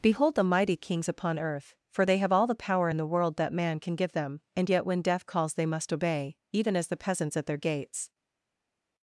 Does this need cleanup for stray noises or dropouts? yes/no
no